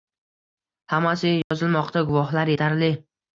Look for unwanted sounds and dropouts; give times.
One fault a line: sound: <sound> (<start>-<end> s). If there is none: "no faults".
sound: dropout (1.4-1.5 s)